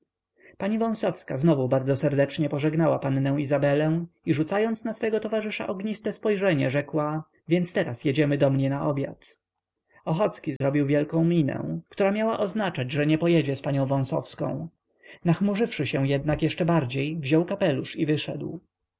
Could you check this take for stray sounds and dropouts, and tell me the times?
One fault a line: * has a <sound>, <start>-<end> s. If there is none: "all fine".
* has a dropout, 10.6-10.6 s